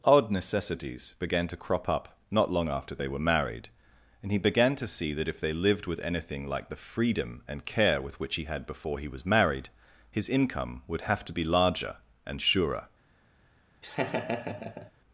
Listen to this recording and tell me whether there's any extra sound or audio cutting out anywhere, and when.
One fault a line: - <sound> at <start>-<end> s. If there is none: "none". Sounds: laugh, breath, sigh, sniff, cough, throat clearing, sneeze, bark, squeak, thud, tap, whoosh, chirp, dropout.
- laugh at 13.8-14.9 s